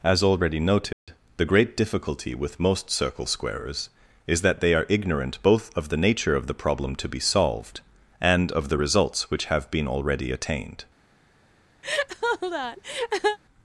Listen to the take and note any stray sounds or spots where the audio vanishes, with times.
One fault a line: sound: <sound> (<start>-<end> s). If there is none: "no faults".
sound: dropout (0.9-1.1 s)
sound: laugh (11.8-13.4 s)